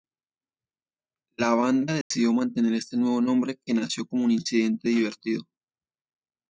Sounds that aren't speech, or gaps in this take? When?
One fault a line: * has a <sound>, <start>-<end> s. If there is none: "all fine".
* has a dropout, 2.0-2.1 s